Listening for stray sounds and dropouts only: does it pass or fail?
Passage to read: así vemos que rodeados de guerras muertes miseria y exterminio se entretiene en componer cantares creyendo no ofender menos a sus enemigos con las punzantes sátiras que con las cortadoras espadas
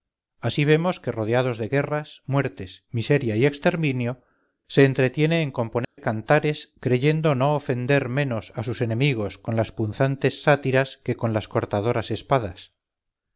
fail